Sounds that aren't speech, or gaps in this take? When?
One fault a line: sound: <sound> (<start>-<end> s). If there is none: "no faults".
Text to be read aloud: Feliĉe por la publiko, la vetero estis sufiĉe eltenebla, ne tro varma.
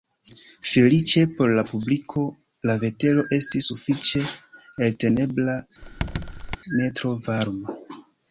sound: squeak (5.8-6.6 s)